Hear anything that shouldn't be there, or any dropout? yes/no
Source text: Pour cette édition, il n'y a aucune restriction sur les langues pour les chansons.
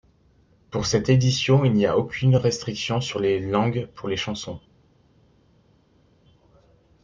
no